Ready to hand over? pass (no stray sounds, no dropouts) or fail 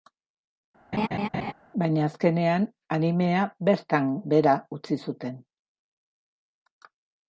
fail